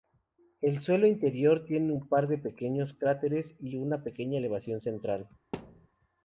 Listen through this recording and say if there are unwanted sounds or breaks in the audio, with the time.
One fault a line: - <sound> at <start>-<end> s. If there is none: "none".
- thud at 5.5-5.9 s